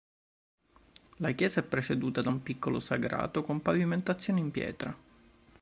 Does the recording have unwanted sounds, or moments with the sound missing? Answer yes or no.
no